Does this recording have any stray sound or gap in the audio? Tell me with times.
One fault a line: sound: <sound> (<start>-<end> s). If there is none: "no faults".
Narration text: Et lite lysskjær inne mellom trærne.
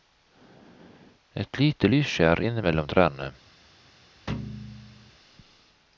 sound: thud (4.3-5.1 s)